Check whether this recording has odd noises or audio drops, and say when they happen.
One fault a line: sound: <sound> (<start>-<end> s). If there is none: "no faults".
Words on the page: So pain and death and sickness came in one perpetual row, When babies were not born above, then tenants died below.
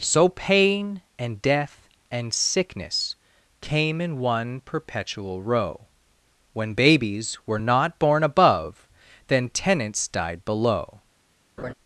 sound: laugh (11.6-11.7 s)